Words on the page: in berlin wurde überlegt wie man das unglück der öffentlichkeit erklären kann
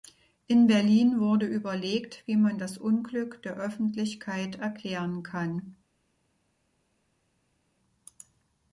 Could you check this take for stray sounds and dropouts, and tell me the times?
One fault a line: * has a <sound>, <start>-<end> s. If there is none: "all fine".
all fine